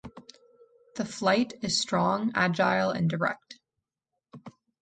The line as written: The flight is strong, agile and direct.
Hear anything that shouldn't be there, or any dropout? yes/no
no